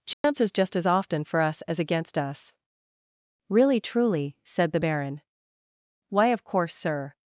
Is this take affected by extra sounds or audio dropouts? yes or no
yes